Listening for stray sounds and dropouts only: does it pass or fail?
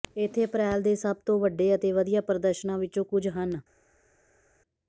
pass